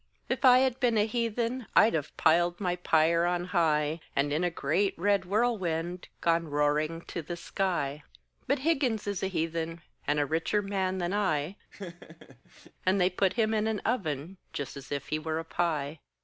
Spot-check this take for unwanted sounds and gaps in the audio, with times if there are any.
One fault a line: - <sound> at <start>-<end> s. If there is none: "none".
- laugh at 11.7-12.7 s